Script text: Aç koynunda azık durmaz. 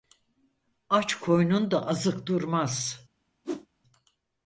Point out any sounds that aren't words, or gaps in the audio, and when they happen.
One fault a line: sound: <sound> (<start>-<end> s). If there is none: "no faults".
sound: whoosh (3.4-3.7 s)